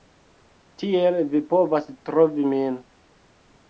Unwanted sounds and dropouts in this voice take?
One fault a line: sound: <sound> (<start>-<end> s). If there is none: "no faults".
no faults